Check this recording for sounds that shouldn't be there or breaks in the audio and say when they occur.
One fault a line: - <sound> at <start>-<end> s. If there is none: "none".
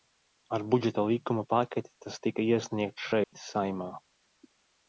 - dropout at 3.2-3.3 s